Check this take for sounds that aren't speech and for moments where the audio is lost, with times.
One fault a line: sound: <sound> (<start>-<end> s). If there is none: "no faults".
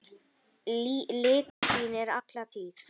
sound: dropout (1.5-1.6 s)